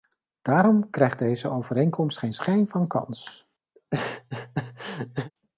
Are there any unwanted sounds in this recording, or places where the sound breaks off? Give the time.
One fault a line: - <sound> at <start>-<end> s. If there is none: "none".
- laugh at 3.8-5.3 s